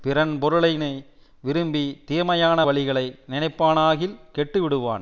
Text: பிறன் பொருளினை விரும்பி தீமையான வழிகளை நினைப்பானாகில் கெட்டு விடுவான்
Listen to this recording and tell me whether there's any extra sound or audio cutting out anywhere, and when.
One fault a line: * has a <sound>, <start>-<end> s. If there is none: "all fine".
all fine